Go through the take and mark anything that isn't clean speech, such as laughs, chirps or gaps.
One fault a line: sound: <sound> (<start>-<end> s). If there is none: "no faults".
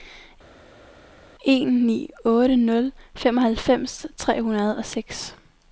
no faults